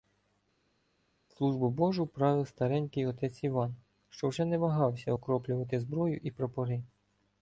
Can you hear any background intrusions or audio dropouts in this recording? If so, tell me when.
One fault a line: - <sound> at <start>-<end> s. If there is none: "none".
none